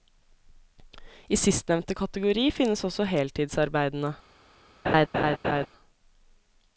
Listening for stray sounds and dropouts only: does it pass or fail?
fail